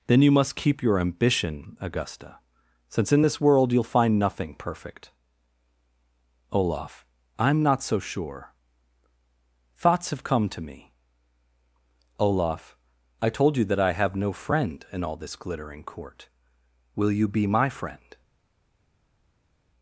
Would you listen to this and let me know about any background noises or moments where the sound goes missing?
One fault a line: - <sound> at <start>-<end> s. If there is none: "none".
none